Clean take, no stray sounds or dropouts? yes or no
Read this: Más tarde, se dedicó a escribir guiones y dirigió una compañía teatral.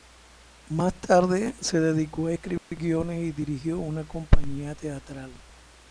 no